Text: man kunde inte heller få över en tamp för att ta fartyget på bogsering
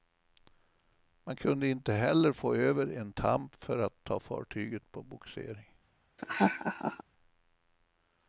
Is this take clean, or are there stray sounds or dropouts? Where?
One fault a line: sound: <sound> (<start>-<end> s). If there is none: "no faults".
sound: laugh (6.2-7.0 s)